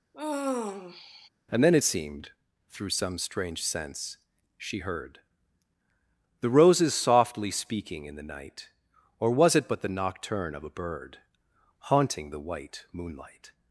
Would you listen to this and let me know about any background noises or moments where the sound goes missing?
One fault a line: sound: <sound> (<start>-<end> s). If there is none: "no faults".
sound: sigh (0.1-1.3 s)